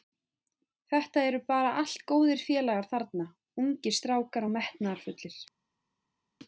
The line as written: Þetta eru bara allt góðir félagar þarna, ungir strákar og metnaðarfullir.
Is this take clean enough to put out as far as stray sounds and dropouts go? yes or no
yes